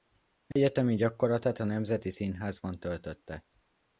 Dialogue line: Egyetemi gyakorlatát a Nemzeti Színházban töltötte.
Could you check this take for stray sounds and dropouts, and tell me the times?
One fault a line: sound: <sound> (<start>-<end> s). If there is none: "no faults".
sound: dropout (0.5-0.6 s)